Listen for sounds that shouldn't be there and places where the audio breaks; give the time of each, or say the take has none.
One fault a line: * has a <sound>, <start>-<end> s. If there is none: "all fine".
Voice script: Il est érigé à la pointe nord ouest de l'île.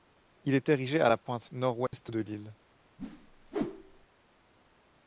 * has a dropout, 1.9-1.9 s
* has a whoosh, 3.0-4.1 s